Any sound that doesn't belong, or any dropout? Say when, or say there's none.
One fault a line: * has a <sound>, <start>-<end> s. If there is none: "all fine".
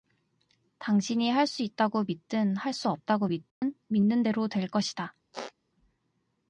* has a dropout, 3.5-3.6 s
* has a squeak, 5.3-5.5 s